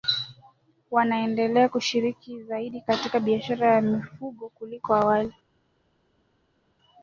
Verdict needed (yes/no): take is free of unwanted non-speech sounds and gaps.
yes